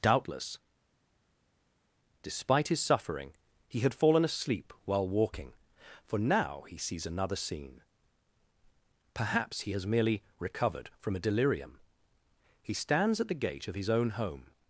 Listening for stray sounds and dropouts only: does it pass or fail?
pass